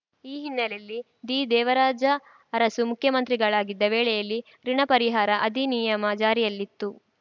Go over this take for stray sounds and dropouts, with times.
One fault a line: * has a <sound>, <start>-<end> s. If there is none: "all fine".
all fine